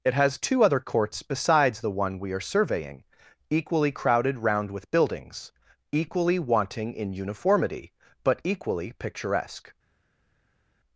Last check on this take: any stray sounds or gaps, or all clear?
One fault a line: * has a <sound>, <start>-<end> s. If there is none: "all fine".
all fine